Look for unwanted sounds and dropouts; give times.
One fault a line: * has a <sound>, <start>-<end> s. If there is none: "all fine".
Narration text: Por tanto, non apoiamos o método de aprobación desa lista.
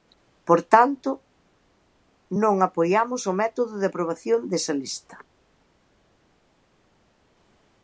all fine